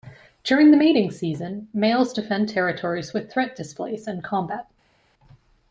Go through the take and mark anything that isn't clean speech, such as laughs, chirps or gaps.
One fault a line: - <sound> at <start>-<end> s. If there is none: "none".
none